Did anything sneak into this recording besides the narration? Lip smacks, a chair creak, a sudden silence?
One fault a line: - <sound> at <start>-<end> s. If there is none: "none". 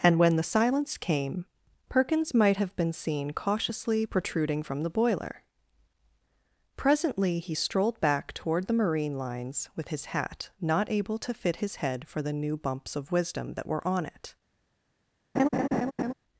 - laugh at 15.3-16.1 s